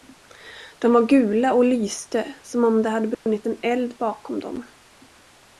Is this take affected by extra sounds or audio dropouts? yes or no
yes